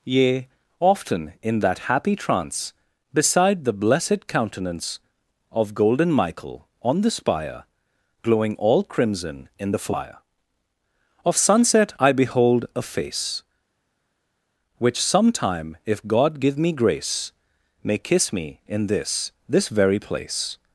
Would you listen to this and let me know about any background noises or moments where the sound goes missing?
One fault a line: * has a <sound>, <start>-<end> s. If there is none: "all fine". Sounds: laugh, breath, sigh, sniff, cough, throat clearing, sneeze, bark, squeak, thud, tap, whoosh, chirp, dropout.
all fine